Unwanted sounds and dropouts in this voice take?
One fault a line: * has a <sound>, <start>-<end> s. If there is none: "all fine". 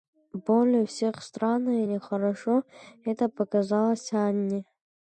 all fine